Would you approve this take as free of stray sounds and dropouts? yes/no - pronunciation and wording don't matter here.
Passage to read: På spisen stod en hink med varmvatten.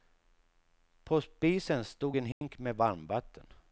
no